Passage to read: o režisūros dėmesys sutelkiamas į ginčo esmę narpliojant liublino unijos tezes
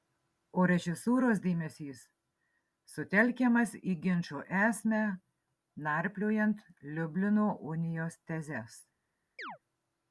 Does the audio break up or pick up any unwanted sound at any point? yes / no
yes